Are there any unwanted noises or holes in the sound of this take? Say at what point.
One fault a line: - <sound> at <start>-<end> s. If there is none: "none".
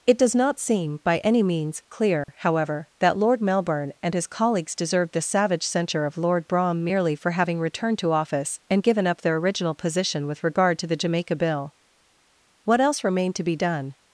- dropout at 2.2-2.3 s